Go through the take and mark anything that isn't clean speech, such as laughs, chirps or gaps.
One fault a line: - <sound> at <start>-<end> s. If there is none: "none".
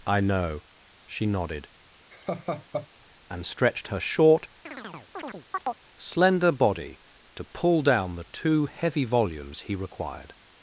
- laugh at 2.1-2.9 s
- chirp at 4.7-5.8 s